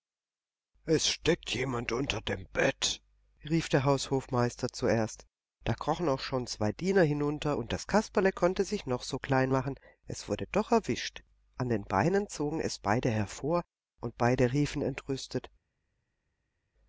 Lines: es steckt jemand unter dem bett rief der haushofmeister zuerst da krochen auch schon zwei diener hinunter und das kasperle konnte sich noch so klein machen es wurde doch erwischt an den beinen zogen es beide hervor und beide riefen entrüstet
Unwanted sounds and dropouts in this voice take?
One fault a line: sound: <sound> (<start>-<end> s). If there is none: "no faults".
no faults